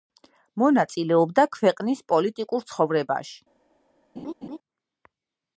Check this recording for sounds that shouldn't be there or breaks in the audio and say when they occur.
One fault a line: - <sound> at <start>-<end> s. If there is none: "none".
- laugh at 4.2-4.6 s